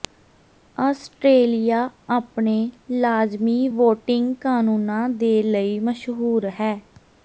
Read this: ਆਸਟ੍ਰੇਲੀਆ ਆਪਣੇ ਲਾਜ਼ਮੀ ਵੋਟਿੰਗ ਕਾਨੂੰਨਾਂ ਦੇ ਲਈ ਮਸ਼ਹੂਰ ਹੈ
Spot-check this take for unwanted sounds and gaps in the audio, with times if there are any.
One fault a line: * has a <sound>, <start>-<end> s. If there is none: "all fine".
all fine